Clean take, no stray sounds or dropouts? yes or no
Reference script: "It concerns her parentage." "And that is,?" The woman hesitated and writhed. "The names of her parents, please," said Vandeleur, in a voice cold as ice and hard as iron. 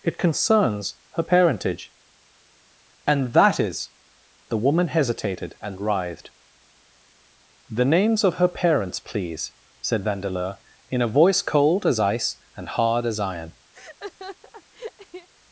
no